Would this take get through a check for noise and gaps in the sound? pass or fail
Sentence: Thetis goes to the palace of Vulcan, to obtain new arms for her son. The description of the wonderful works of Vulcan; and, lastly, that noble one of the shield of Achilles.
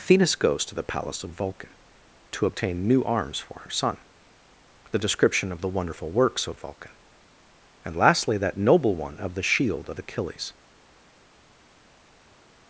pass